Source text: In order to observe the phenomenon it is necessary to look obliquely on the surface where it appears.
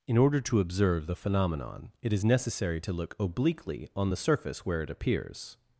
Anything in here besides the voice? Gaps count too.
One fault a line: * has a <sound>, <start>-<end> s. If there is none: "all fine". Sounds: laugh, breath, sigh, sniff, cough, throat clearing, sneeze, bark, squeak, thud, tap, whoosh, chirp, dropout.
all fine